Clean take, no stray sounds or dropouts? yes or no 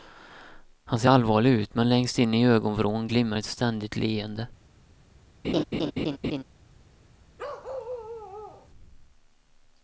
no